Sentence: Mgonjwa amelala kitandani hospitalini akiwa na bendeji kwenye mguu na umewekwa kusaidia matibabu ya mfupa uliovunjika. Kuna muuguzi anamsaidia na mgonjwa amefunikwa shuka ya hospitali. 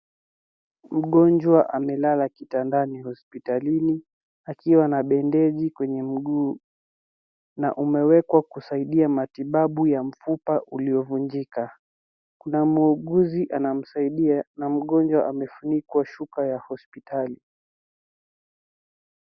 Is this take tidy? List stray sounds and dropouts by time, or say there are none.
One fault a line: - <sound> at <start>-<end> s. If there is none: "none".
none